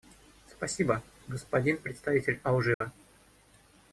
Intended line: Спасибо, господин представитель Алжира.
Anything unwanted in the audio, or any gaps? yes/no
yes